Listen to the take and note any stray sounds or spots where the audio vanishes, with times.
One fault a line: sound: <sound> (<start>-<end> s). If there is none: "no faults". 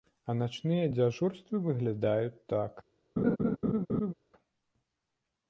sound: laugh (3.2-4.1 s)